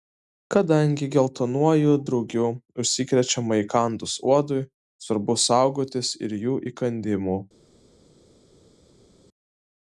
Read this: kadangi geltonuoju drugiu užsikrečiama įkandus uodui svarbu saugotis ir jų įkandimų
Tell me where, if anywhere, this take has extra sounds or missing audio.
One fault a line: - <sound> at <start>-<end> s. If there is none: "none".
none